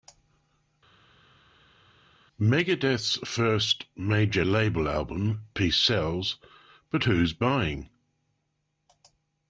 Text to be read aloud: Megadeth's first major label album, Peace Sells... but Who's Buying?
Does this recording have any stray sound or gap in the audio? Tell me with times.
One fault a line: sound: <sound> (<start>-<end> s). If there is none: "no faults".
no faults